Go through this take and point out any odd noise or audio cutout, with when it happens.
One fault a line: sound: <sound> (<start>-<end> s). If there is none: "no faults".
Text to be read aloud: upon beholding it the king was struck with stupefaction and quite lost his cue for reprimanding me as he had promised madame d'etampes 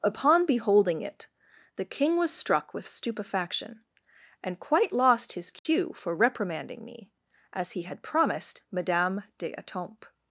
sound: dropout (5.6-5.7 s)